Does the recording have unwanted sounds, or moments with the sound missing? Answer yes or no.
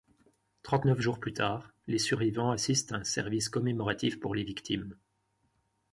no